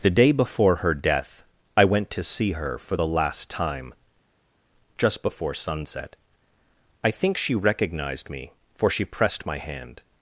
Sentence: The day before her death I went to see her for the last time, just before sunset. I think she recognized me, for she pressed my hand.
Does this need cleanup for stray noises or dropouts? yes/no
no